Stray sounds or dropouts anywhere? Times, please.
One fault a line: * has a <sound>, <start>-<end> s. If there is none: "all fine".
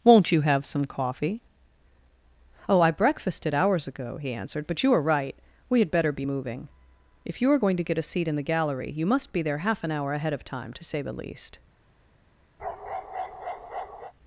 * has a bark, 12.6-14.1 s